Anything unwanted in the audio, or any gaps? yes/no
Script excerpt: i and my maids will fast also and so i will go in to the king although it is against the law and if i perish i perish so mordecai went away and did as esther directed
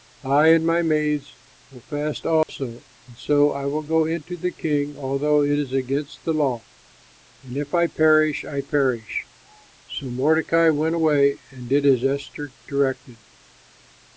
yes